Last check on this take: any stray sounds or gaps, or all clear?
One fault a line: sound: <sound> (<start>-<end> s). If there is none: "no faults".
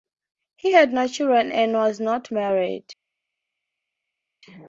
no faults